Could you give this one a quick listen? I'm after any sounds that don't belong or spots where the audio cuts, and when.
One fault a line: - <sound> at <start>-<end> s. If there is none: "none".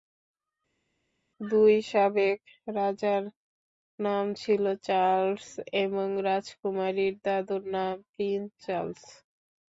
none